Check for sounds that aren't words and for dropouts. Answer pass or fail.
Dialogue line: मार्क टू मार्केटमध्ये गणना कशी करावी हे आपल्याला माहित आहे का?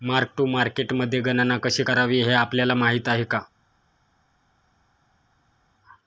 pass